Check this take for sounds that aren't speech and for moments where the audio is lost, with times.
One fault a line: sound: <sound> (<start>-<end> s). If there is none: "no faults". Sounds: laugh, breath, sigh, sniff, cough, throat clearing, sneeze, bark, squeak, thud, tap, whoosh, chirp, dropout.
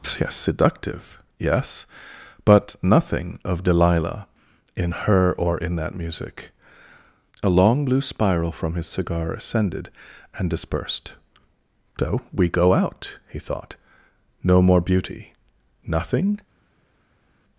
no faults